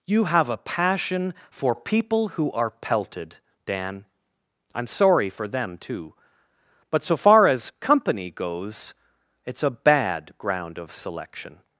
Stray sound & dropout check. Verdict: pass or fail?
pass